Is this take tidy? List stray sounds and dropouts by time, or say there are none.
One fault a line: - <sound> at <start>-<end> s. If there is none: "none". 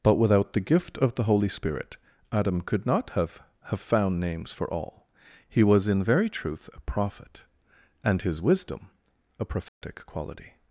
- dropout at 9.7-9.8 s